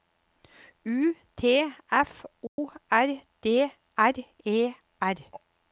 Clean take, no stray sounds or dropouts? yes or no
no